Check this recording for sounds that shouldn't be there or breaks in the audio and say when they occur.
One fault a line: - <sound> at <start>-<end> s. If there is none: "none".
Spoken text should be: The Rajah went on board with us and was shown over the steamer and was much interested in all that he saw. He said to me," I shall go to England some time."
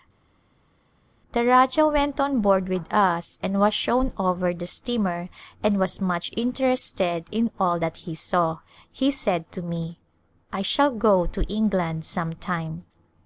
none